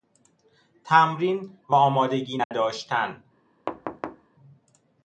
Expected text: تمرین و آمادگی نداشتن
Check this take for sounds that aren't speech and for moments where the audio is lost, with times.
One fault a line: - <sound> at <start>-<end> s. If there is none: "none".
- dropout at 2.4-2.5 s
- thud at 3.7-4.3 s